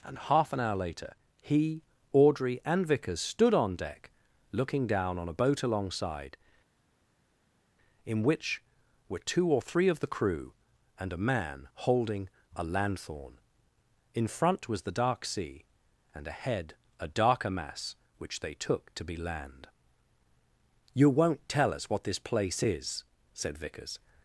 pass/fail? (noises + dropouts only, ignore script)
pass